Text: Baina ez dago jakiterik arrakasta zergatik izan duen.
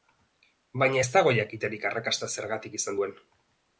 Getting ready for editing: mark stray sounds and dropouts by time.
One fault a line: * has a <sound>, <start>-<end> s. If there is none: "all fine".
all fine